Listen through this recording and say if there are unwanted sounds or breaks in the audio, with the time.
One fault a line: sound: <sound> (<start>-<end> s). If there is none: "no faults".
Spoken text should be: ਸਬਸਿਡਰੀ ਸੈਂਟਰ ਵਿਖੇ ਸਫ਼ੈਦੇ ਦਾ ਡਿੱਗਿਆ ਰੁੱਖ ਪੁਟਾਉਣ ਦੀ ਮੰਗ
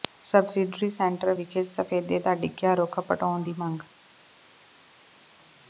no faults